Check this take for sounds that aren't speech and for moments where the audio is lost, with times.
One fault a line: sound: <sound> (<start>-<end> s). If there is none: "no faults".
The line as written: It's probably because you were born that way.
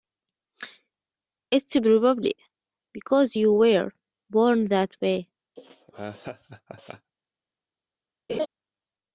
sound: laugh (5.6-7.1 s)
sound: laugh (8.3-8.5 s)